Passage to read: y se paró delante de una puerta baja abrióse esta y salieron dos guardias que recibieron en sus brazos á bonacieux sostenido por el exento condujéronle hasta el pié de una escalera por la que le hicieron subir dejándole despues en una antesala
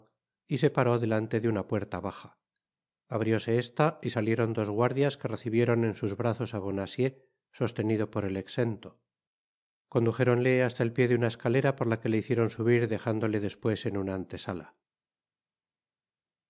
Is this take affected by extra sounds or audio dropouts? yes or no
no